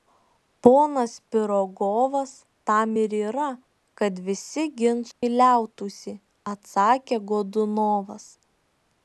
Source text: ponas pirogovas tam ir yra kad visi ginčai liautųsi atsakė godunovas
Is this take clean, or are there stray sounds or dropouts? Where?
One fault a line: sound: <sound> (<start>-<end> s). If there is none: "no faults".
sound: dropout (5.1-5.2 s)